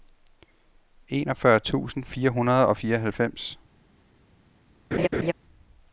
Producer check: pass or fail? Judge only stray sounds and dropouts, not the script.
fail